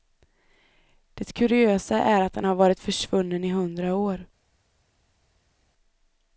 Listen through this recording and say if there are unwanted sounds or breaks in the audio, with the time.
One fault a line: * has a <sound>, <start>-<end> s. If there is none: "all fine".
all fine